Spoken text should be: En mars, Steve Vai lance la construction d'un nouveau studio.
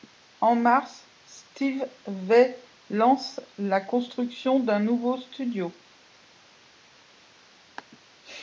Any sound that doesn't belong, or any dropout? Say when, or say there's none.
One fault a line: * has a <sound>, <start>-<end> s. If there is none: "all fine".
all fine